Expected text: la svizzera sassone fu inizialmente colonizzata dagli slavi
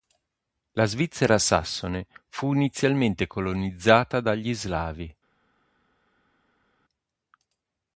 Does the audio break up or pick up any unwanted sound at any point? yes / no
no